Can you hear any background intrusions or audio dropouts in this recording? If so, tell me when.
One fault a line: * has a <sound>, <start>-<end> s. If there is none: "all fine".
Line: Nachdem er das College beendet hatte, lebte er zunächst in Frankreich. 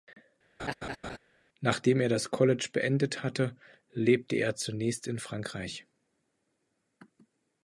* has a laugh, 0.6-1.2 s